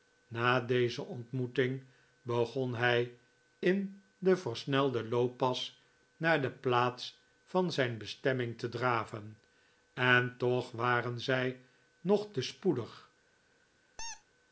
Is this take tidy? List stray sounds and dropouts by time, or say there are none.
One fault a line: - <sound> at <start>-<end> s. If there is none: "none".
- squeak at 14.0-14.2 s